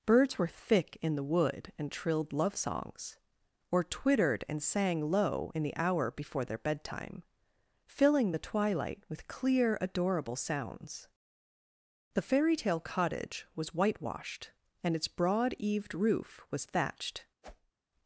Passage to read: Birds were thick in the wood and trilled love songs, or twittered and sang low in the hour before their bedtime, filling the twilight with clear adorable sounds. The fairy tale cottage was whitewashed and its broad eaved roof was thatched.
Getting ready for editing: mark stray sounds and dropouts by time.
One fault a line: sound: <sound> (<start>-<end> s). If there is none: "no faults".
sound: whoosh (17.4-17.7 s)